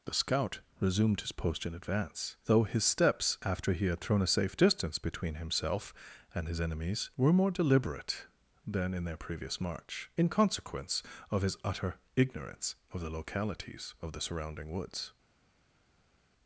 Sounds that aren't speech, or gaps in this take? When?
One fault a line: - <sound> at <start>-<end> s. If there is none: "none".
none